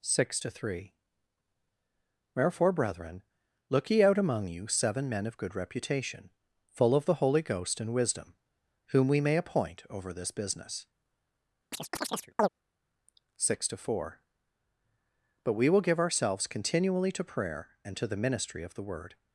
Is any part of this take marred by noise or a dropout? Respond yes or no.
yes